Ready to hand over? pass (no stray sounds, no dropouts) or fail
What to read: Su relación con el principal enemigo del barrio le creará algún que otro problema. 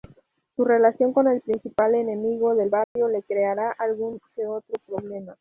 fail